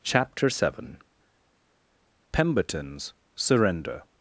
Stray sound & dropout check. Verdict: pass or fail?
pass